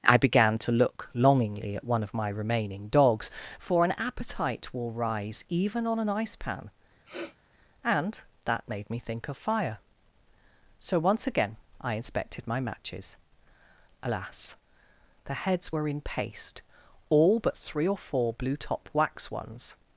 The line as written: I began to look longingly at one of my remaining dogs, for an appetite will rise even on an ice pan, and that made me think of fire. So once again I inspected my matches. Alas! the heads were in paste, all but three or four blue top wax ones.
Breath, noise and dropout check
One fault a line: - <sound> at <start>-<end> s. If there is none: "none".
- sniff at 7.0-7.4 s